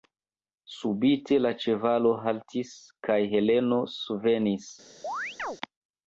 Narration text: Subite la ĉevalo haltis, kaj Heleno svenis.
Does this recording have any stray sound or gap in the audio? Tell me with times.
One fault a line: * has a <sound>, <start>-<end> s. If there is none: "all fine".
* has a chirp, 5.0-5.6 s